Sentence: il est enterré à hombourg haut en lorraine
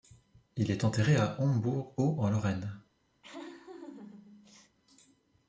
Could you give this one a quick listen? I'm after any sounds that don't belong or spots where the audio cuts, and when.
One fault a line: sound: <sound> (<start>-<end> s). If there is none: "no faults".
sound: laugh (3.2-4.8 s)